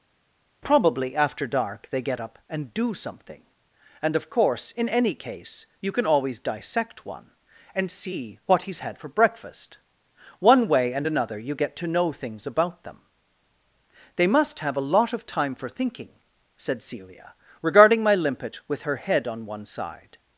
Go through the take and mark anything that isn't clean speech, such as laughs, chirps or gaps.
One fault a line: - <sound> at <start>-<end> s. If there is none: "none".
none